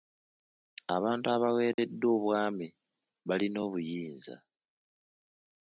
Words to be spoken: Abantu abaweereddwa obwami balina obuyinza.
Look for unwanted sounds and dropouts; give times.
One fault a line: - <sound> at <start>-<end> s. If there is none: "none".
- dropout at 1.7-1.8 s